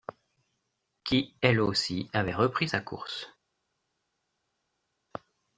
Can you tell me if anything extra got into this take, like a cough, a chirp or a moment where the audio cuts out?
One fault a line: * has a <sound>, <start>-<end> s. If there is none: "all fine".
all fine